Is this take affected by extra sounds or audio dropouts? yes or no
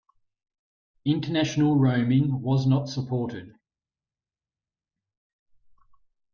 no